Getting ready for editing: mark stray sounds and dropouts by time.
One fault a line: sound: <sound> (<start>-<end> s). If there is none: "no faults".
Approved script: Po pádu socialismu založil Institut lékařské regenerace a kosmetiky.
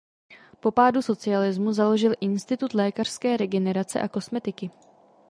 no faults